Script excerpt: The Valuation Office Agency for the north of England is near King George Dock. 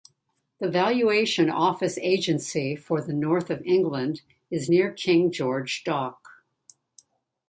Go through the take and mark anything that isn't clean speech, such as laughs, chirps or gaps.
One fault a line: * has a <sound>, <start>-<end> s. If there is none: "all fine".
all fine